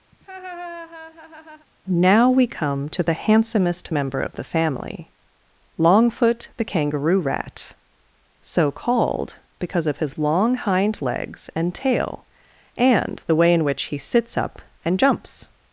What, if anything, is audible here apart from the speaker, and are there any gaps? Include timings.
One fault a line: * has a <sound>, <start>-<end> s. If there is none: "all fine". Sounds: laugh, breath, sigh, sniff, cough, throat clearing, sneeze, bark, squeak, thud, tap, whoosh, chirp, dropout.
* has a laugh, 0.1-1.7 s